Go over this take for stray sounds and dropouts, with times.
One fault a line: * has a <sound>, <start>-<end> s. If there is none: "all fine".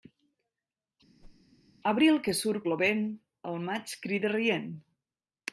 * has a whoosh, 1.2-1.4 s